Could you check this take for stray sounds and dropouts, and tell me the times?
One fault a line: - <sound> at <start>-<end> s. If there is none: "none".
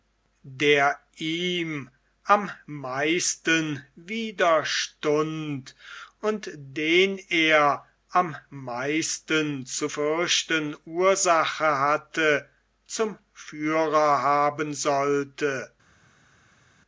none